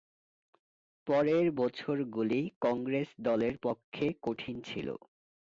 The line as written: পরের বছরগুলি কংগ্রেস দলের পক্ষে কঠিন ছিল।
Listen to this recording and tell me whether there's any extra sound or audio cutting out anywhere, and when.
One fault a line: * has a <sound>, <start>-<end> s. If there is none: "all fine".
all fine